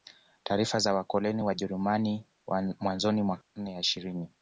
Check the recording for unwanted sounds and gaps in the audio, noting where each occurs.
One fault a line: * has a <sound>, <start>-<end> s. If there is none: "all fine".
* has a dropout, 3.4-3.6 s